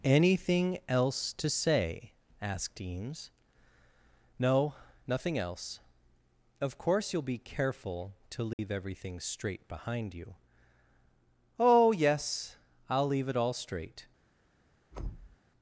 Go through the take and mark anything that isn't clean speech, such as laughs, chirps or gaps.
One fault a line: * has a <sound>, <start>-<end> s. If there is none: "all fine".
* has a dropout, 8.5-8.6 s
* has a thud, 14.9-15.4 s